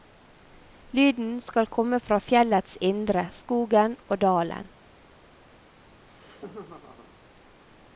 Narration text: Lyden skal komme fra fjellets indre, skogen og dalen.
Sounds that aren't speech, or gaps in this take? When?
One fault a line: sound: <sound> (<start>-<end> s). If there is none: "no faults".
sound: laugh (5.9-7.1 s)